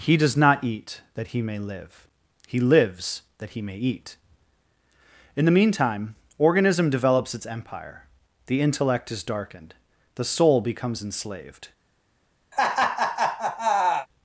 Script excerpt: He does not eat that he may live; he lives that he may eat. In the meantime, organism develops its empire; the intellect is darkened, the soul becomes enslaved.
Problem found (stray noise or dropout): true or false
true